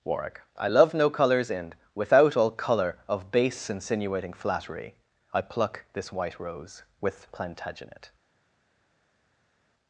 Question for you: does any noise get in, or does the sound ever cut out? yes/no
no